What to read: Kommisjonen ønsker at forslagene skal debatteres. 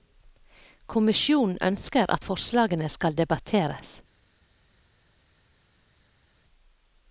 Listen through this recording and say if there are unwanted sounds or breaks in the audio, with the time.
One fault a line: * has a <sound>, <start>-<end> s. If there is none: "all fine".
all fine